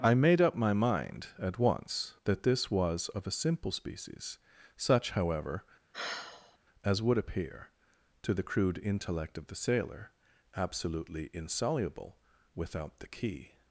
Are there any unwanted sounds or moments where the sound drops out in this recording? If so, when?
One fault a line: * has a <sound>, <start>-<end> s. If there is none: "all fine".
* has a sigh, 5.9-6.6 s